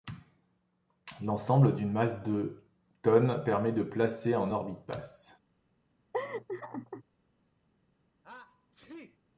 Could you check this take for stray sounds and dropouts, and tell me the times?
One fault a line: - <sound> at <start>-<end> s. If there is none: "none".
- laugh at 6.1-7.0 s
- sneeze at 8.2-9.2 s